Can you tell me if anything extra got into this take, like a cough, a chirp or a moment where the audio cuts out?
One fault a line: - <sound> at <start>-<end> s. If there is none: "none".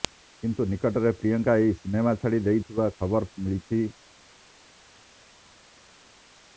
none